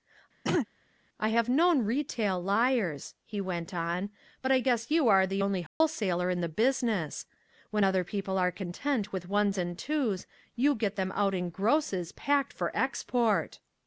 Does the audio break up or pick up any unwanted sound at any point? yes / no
yes